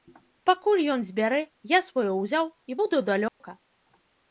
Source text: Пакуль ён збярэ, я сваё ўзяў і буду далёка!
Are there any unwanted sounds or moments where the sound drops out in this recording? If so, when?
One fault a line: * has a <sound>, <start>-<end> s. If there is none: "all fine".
* has a dropout, 3.3-3.4 s